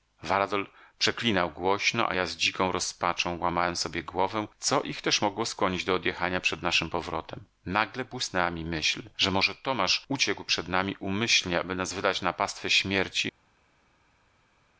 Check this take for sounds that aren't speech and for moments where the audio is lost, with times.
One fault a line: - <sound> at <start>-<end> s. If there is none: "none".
none